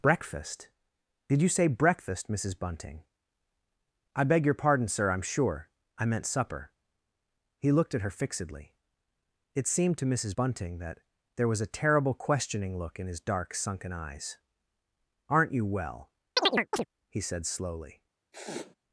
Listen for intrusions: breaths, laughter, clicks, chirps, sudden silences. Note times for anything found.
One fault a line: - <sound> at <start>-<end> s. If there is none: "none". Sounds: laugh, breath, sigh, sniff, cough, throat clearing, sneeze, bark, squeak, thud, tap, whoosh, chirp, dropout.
- chirp at 16.4-16.9 s
- sniff at 18.3-18.8 s